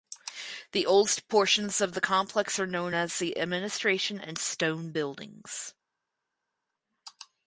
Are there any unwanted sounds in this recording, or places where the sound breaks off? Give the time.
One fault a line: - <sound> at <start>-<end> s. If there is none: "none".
none